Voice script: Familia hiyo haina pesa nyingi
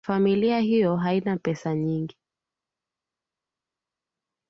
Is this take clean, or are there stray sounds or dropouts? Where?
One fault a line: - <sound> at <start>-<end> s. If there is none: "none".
none